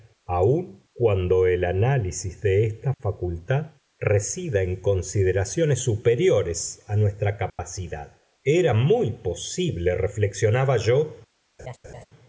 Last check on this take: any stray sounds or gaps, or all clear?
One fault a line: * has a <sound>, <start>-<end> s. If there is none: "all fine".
* has a dropout, 7.5-7.6 s
* has a laugh, 11.6-12.1 s